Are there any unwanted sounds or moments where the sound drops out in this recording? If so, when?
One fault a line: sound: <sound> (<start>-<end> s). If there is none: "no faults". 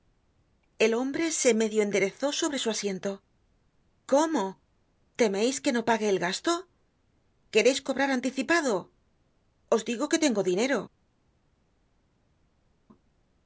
no faults